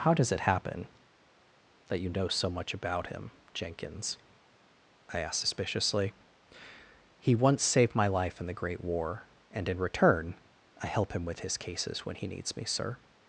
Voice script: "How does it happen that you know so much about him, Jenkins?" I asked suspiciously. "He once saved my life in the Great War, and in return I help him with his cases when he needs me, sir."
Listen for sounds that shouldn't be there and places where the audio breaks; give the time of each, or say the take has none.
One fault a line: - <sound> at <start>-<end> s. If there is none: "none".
none